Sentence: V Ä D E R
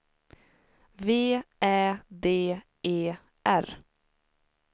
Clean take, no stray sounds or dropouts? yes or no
yes